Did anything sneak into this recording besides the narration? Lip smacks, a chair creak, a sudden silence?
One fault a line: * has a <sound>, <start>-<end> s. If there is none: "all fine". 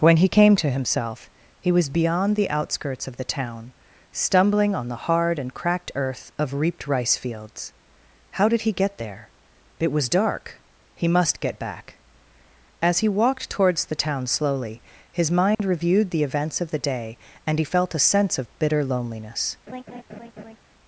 * has a dropout, 15.5-15.6 s
* has a laugh, 19.7-20.6 s